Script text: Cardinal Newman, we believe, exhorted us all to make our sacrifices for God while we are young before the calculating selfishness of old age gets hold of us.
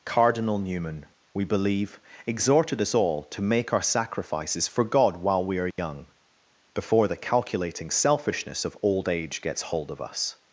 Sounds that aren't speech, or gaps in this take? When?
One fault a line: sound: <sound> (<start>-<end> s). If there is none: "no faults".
sound: dropout (5.7-5.8 s)